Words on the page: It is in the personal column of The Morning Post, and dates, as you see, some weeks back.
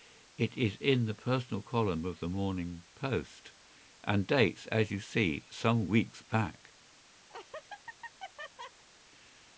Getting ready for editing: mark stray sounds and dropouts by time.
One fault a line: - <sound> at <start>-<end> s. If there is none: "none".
- laugh at 7.3-8.8 s